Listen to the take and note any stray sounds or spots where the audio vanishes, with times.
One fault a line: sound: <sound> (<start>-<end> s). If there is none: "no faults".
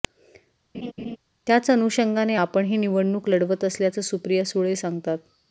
sound: laugh (0.7-1.2 s)